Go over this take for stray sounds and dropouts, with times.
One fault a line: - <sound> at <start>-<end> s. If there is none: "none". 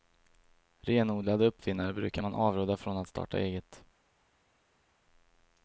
none